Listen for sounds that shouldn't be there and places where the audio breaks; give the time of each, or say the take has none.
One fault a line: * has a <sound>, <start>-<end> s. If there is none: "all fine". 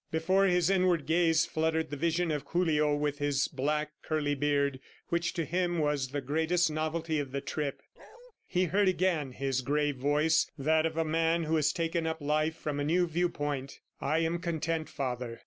* has a bark, 8.0-8.3 s